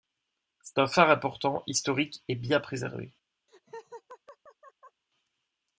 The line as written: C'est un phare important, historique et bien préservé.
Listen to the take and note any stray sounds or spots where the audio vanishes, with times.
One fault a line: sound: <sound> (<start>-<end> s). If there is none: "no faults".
sound: laugh (3.5-5.0 s)